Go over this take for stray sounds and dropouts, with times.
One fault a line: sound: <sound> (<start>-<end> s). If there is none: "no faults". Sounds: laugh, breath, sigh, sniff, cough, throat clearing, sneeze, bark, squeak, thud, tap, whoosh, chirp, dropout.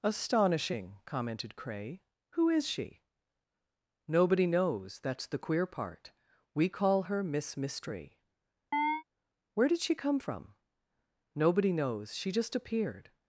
sound: chirp (8.7-9.0 s)